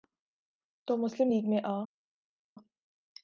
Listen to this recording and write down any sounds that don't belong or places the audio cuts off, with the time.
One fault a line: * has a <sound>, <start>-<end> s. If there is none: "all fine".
all fine